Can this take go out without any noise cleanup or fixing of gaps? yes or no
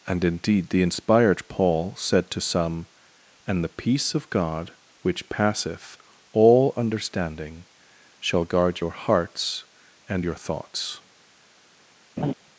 no